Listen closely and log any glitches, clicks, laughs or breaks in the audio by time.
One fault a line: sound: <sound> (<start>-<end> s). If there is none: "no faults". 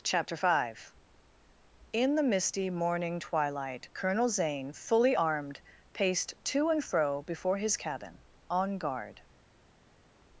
no faults